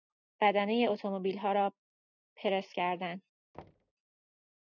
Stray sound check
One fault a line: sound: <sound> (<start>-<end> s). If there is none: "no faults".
sound: thud (3.5-3.9 s)